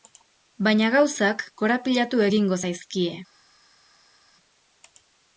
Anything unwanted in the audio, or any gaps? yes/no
no